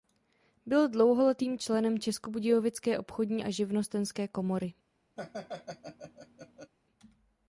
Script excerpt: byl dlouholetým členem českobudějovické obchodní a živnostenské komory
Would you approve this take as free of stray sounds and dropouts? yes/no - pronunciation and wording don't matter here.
no